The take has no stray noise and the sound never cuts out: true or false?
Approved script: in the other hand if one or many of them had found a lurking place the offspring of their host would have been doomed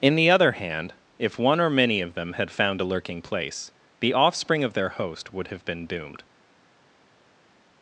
true